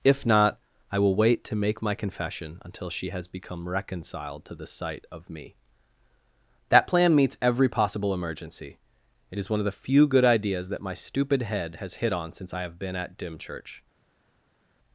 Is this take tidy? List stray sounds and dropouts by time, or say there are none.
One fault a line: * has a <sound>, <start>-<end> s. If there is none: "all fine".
all fine